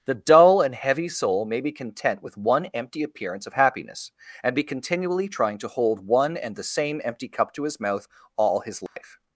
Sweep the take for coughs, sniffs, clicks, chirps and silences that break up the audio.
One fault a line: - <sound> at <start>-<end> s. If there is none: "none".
- dropout at 8.9-9.0 s